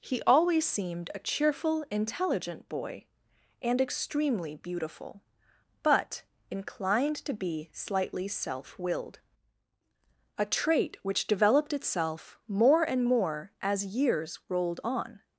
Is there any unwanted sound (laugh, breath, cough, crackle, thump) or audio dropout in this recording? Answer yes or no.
no